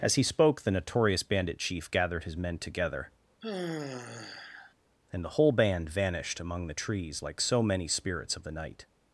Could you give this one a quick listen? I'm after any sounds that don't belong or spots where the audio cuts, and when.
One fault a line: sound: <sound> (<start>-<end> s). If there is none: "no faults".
sound: sigh (3.4-4.7 s)